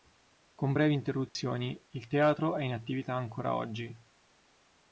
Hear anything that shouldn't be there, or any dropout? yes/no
yes